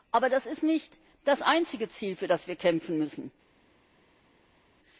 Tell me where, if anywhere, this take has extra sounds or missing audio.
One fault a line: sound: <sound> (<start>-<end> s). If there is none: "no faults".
no faults